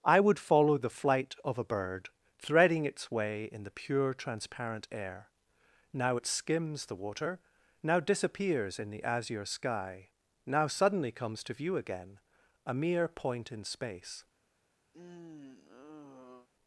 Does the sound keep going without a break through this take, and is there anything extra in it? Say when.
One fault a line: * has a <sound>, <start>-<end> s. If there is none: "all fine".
* has a sigh, 14.9-16.5 s